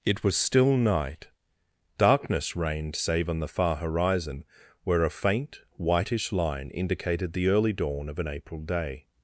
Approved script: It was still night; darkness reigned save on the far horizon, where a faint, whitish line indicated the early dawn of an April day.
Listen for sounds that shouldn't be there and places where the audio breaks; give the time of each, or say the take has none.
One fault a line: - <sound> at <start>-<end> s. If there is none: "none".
none